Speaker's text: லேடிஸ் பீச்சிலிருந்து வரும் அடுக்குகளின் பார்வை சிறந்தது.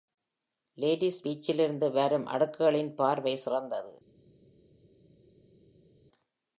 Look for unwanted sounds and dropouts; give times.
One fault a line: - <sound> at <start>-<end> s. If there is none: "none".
none